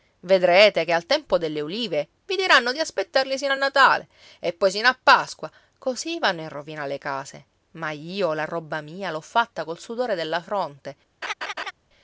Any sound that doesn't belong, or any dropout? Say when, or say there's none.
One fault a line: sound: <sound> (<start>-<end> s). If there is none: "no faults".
sound: laugh (11.2-11.7 s)